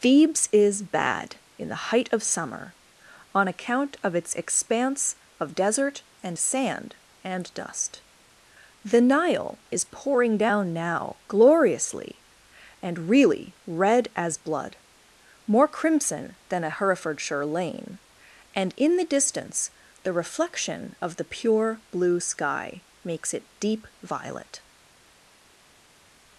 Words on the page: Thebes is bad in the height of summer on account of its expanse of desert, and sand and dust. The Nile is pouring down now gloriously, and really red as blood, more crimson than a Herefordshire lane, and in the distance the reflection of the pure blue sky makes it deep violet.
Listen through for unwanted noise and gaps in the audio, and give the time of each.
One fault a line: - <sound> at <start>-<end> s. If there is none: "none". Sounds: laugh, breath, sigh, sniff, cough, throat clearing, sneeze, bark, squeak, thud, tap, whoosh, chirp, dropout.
none